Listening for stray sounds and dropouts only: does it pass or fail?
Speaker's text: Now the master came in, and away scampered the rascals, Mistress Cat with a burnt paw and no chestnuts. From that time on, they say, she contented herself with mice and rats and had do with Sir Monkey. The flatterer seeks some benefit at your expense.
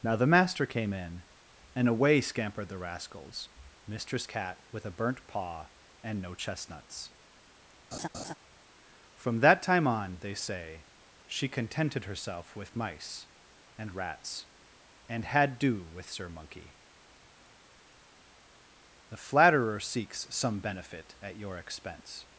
fail